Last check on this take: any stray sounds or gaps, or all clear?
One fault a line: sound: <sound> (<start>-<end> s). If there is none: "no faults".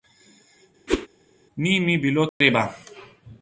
sound: whoosh (0.9-1.1 s)
sound: dropout (2.3-2.4 s)